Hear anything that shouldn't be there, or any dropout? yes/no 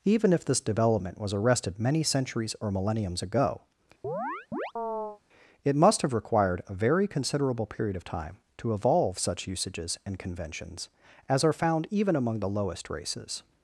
yes